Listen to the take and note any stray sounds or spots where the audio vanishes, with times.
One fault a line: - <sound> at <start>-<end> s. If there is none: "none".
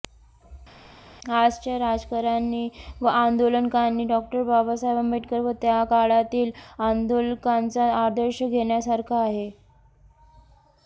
none